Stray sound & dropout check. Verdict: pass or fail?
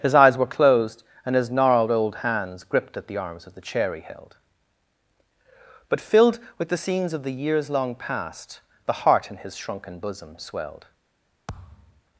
fail